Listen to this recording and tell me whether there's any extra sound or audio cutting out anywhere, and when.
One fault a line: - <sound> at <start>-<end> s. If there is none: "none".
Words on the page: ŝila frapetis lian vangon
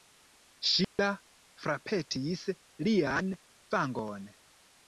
- dropout at 0.8-1.0 s